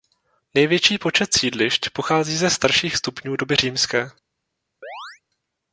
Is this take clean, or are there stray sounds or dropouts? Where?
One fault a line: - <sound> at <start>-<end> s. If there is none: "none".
- chirp at 4.8-5.2 s